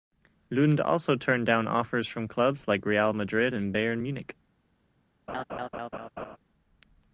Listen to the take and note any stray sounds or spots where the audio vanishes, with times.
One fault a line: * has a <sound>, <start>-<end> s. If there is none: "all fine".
* has a laugh, 5.3-6.4 s